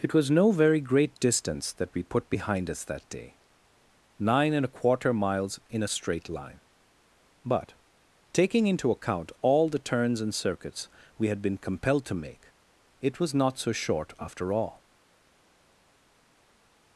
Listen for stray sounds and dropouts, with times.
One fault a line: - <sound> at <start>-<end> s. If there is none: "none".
none